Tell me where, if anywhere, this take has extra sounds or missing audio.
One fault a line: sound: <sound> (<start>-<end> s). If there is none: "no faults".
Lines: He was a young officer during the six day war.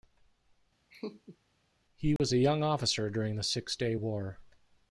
sound: laugh (0.9-1.4 s)
sound: dropout (2.2-2.2 s)